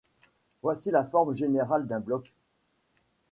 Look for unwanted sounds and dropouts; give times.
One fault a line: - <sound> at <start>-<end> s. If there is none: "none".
none